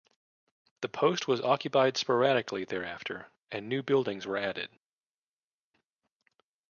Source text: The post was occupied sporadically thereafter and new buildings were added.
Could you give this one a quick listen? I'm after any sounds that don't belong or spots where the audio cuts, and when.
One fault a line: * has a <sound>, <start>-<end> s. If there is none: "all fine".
all fine